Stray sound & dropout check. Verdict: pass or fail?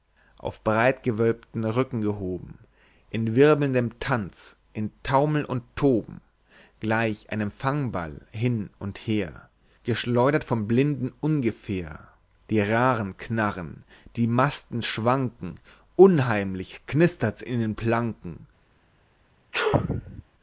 fail